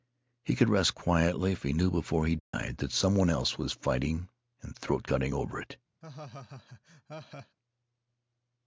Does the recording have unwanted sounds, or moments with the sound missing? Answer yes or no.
yes